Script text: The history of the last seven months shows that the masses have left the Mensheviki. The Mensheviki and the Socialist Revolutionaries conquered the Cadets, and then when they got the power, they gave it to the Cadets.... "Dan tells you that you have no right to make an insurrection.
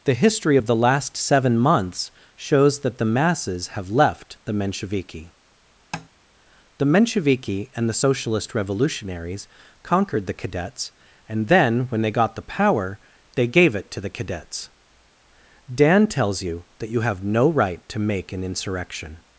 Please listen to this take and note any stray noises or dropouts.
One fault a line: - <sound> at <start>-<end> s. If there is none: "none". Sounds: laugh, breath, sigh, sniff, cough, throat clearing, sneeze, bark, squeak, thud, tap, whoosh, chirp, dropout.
- tap at 5.9-6.1 s